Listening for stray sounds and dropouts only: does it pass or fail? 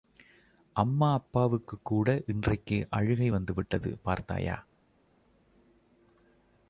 pass